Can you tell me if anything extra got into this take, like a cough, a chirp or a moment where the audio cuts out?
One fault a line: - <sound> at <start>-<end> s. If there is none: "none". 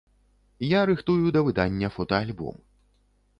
none